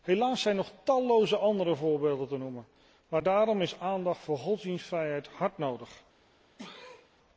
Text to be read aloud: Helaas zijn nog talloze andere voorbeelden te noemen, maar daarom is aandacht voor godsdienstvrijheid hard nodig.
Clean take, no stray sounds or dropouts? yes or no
no